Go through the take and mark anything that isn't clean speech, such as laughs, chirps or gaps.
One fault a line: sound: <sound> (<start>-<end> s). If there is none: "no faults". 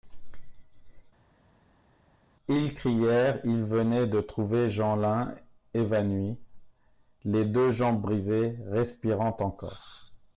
no faults